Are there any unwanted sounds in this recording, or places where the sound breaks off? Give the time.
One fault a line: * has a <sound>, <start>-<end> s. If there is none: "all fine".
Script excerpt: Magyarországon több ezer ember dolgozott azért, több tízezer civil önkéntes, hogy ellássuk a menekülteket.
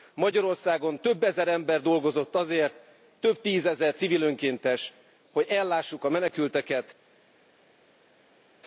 all fine